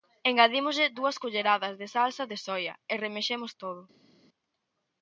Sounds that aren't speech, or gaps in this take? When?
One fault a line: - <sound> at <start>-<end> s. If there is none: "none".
none